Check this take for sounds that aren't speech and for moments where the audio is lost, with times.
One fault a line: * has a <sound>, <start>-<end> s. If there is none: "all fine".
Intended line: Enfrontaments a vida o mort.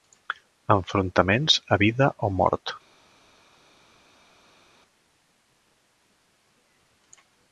all fine